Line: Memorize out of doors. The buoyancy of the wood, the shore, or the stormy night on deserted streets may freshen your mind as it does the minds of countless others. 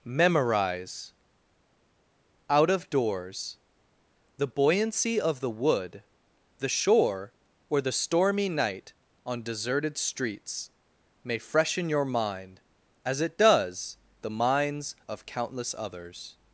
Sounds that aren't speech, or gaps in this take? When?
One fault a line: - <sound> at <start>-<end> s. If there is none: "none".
none